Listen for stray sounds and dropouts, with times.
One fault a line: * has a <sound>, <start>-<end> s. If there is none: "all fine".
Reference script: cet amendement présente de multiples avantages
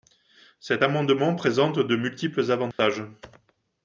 * has a dropout, 2.7-2.8 s